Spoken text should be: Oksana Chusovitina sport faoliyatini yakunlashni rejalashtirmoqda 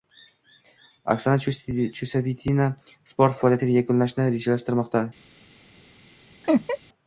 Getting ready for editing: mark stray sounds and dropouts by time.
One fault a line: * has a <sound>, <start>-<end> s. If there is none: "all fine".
* has a laugh, 6.4-6.8 s